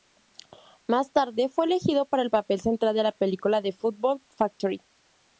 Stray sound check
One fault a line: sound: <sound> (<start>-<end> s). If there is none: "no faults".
no faults